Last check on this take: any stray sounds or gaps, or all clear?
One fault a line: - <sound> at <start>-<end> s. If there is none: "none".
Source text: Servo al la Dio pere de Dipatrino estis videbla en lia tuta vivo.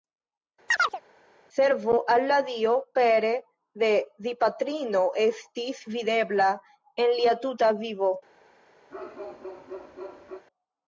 - chirp at 0.7-1.0 s
- bark at 8.9-10.4 s